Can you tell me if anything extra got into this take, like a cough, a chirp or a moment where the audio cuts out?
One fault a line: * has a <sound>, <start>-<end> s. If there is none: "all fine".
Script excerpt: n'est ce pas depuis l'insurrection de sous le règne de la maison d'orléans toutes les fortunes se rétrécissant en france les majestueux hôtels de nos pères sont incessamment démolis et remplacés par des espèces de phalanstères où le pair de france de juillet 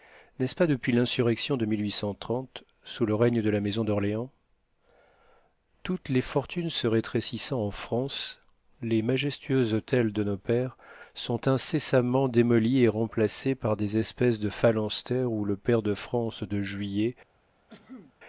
* has a cough, 17.7-18.1 s